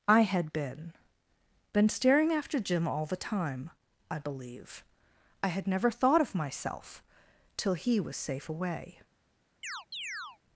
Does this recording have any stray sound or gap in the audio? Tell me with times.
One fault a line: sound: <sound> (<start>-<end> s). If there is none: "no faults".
sound: chirp (9.6-10.4 s)